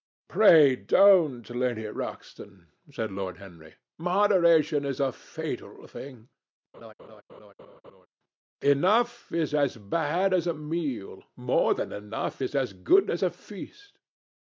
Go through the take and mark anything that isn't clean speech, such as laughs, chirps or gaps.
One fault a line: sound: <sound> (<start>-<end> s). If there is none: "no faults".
sound: laugh (6.7-8.1 s)